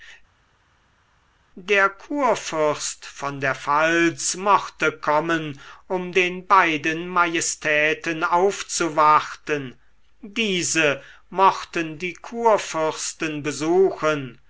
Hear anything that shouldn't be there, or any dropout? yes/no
no